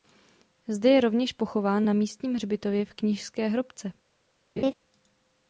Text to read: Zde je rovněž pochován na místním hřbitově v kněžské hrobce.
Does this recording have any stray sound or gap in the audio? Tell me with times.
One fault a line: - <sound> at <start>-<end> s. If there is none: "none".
- laugh at 4.6-4.7 s